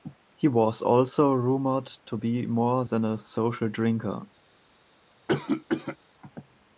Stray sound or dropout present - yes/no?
yes